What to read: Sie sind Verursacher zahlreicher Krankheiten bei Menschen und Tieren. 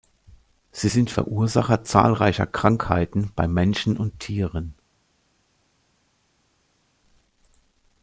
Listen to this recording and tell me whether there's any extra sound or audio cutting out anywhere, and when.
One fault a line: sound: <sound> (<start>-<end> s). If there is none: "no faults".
no faults